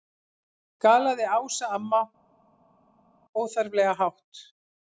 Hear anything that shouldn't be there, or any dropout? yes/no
no